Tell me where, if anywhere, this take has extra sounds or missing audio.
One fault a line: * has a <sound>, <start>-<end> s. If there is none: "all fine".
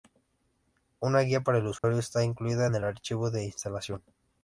* has a dropout, 1.8-1.8 s